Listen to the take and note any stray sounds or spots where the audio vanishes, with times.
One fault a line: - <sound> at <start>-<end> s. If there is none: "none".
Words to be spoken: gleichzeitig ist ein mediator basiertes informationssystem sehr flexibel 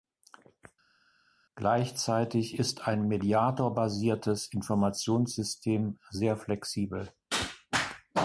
none